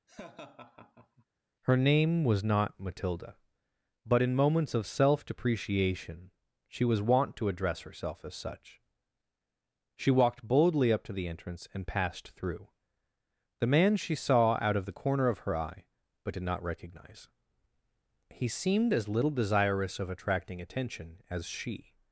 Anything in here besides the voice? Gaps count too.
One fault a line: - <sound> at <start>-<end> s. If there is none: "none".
- laugh at 0.1-1.2 s